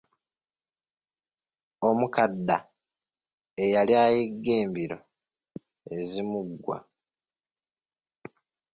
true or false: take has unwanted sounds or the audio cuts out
false